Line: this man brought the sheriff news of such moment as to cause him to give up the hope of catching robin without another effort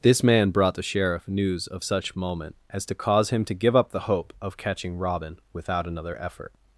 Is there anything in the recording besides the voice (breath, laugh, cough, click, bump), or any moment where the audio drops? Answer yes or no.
no